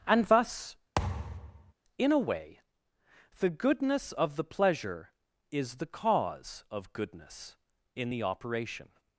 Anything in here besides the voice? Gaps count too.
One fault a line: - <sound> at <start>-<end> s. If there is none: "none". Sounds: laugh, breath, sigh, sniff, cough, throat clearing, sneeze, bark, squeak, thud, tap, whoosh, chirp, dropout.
- thud at 1.0-1.7 s